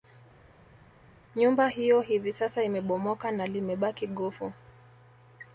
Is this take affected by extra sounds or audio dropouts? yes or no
no